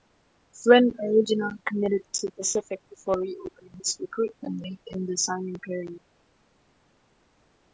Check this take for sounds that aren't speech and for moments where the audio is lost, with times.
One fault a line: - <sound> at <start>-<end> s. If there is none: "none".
none